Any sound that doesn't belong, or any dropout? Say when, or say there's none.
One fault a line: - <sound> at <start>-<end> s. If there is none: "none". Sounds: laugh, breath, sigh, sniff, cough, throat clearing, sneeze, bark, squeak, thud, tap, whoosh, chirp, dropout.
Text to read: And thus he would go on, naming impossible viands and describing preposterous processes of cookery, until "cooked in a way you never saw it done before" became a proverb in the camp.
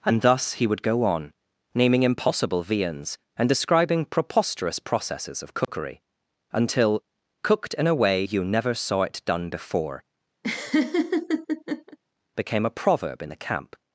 - dropout at 5.6-5.7 s
- laugh at 10.4-12.0 s